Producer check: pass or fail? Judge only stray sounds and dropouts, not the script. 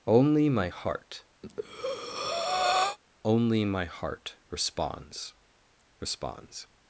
fail